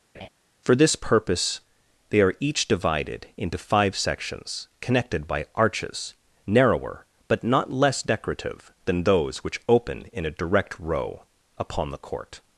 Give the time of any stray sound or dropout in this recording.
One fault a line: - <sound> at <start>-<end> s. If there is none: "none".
- laugh at 0.1-0.3 s